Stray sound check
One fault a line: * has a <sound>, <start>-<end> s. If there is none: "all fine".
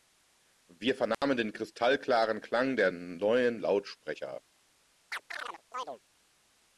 * has a dropout, 1.1-1.2 s
* has a chirp, 5.1-6.0 s